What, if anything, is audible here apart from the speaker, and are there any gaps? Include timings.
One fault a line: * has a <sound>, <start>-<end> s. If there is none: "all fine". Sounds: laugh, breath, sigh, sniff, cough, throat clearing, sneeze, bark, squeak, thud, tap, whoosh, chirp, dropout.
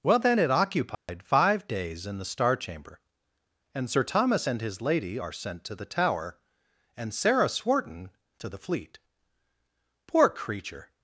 * has a dropout, 0.9-1.1 s